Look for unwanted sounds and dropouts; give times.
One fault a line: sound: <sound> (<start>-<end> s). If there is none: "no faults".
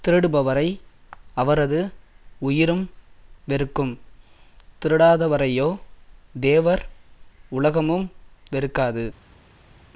no faults